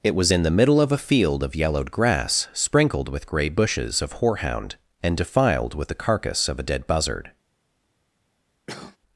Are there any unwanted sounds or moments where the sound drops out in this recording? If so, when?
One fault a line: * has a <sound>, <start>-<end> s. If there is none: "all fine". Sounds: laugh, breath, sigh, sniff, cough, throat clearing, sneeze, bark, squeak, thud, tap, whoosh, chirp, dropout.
* has a cough, 8.7-9.0 s